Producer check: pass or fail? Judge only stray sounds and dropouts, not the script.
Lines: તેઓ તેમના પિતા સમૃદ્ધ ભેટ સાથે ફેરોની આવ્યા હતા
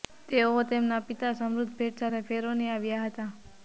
pass